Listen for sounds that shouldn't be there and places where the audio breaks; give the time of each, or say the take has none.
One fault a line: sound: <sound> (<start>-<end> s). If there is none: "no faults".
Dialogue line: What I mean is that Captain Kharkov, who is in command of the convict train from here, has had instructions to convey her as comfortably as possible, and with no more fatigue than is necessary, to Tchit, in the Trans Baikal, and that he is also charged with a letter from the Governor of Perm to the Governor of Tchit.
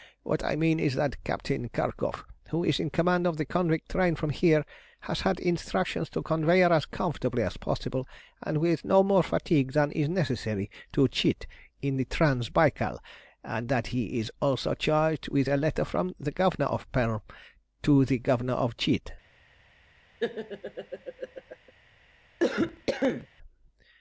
sound: laugh (20.2-21.7 s)
sound: cough (22.4-23.3 s)